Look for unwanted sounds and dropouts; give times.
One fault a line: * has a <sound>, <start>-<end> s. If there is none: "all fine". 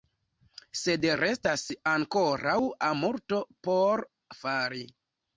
all fine